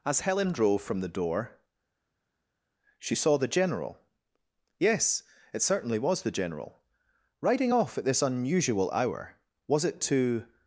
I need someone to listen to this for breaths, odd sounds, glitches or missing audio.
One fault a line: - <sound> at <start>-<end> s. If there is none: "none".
none